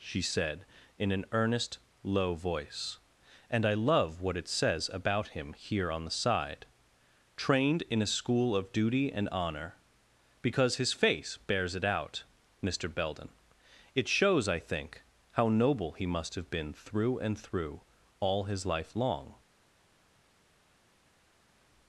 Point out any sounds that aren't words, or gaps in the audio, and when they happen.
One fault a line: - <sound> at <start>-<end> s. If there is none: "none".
none